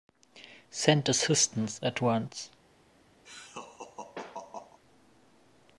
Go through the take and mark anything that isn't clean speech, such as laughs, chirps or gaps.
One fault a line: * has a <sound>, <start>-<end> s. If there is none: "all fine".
* has a laugh, 3.2-4.8 s